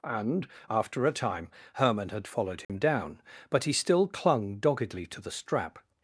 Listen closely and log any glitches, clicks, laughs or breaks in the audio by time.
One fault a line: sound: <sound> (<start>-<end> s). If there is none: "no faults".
sound: dropout (2.6-2.7 s)